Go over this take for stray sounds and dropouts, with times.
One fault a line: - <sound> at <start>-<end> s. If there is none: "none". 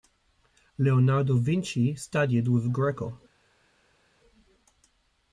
none